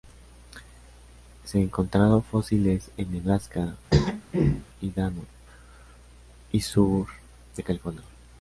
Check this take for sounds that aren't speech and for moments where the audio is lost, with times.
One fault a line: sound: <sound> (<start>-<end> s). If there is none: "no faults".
sound: throat clearing (3.9-4.7 s)